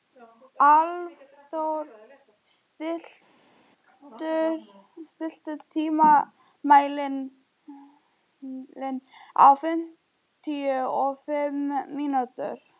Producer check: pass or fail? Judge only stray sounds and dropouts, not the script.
pass